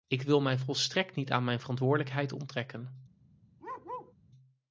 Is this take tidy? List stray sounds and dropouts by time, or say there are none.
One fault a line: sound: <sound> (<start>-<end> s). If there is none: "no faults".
sound: bark (3.6-4.1 s)